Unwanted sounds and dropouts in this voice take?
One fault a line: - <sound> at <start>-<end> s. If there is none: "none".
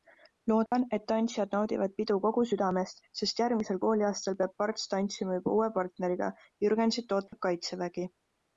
- dropout at 0.7-0.7 s
- dropout at 7.3-7.3 s